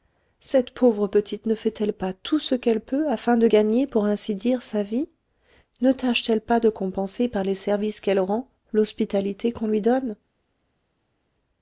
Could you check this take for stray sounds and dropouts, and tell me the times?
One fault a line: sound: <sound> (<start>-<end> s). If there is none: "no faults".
no faults